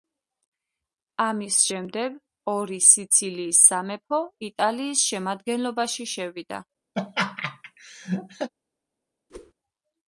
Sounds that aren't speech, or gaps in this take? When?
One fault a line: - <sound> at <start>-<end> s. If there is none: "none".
- laugh at 6.9-8.5 s
- whoosh at 9.3-9.5 s